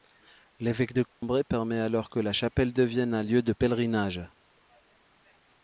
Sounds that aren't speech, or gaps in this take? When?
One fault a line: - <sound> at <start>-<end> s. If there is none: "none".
- dropout at 1.1-1.2 s